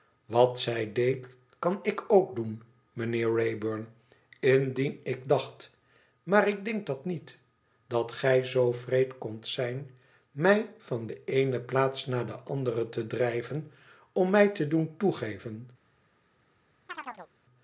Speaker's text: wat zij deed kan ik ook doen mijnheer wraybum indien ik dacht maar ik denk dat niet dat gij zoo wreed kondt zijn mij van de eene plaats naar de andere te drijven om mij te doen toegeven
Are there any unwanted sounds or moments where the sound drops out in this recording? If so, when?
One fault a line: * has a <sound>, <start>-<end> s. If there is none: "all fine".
* has a chirp, 16.9-17.3 s